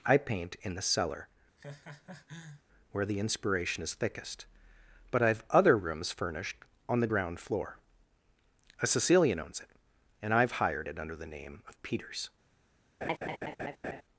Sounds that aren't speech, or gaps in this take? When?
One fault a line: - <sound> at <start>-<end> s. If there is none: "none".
- laugh at 1.6-2.6 s
- laugh at 13.0-14.0 s